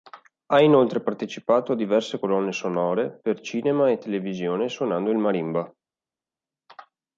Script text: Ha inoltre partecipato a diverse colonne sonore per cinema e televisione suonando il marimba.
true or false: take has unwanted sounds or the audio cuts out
false